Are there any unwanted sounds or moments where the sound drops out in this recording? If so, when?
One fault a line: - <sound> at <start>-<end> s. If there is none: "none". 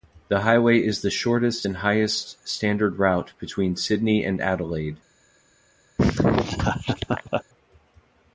- laugh at 6.0-7.4 s